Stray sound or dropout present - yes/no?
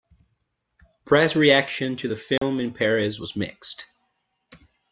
yes